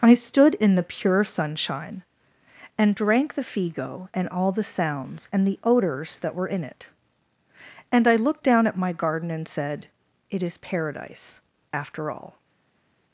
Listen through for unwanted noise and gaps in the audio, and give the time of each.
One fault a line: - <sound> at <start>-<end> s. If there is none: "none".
none